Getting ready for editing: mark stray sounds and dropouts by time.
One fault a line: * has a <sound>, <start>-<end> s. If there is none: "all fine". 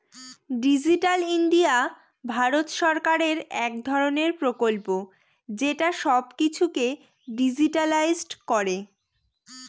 all fine